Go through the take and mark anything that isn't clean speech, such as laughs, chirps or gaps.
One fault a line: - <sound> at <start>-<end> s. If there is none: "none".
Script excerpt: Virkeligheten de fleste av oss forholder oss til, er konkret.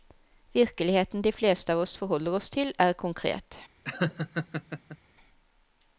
- laugh at 3.8-5.0 s